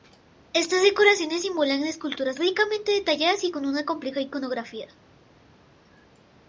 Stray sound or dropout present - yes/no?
no